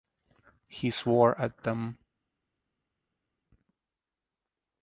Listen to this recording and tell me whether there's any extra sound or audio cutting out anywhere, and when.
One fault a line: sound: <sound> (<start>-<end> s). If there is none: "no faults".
no faults